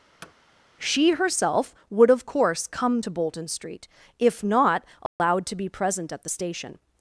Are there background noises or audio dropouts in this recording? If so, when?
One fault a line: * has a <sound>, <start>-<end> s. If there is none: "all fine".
* has a thud, 0.2-0.3 s
* has a dropout, 5.1-5.2 s